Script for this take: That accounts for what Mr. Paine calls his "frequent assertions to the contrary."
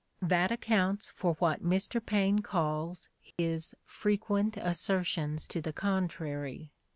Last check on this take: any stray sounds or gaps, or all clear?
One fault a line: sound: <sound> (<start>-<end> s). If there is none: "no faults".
sound: dropout (3.3-3.4 s)